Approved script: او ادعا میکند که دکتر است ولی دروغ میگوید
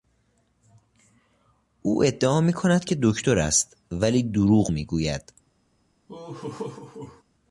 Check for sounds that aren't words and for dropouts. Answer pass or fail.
fail